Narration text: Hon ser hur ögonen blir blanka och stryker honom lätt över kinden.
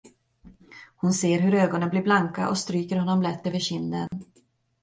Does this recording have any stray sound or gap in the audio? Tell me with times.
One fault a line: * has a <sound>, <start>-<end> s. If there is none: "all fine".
* has a dropout, 4.1-4.1 s